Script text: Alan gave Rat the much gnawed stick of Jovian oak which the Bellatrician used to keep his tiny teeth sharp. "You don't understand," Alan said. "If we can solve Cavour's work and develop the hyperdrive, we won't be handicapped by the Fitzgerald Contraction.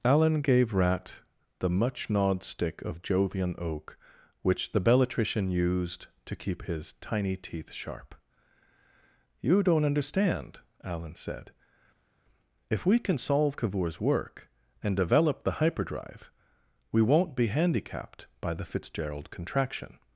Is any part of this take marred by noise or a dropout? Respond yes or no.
no